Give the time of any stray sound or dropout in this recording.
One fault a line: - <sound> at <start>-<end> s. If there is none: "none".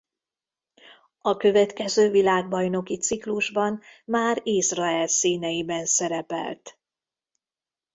none